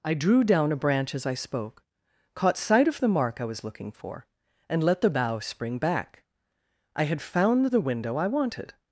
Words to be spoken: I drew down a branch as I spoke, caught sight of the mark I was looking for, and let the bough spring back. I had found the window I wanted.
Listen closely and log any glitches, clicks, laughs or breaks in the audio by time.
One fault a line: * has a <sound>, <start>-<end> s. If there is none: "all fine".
all fine